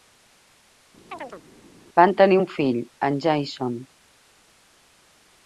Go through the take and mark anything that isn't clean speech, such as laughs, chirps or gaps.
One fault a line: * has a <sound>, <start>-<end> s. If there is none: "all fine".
* has a chirp, 1.1-1.4 s